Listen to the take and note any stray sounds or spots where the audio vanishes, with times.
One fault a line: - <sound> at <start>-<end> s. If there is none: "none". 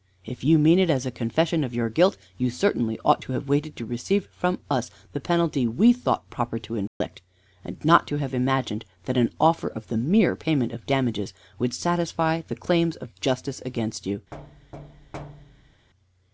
- dropout at 6.9-7.0 s
- thud at 14.3-15.9 s